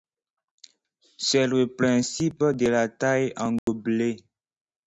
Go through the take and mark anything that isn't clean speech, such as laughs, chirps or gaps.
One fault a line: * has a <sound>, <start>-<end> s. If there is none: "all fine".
* has a dropout, 3.6-3.7 s